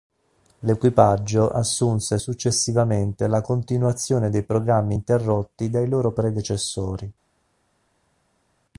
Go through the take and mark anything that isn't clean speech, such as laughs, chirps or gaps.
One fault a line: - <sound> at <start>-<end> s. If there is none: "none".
none